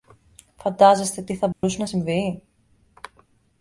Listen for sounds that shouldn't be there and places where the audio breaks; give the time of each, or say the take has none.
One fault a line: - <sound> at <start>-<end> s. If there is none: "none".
- dropout at 1.5-1.6 s